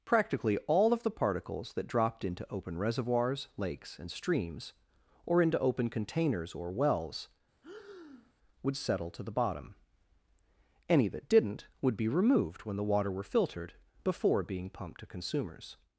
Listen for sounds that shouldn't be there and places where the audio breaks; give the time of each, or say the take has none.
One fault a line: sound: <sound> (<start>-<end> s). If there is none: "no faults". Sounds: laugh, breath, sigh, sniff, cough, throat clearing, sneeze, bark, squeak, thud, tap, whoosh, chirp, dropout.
sound: breath (7.6-8.3 s)